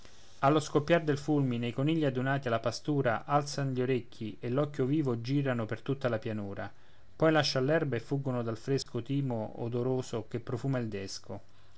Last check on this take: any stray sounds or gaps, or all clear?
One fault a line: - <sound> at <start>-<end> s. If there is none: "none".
- dropout at 8.8-8.9 s